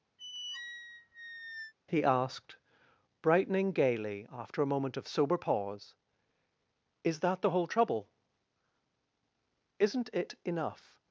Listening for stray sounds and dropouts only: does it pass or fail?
fail